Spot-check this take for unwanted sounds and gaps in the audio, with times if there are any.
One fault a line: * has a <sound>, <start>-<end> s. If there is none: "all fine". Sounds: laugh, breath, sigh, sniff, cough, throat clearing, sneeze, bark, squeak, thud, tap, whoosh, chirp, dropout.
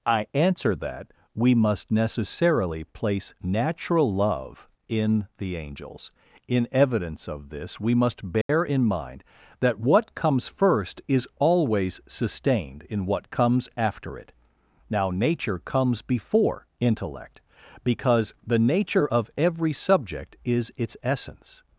* has a dropout, 8.4-8.5 s